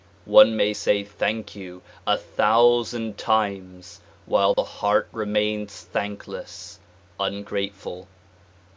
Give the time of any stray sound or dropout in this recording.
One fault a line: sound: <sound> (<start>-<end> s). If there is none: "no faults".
sound: dropout (4.5-4.6 s)